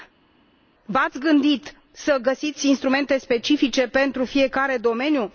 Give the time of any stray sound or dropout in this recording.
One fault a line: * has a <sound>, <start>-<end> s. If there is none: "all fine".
all fine